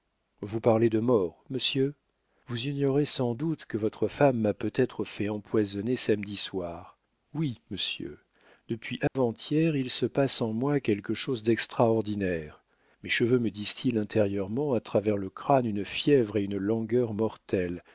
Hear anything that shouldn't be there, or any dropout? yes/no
yes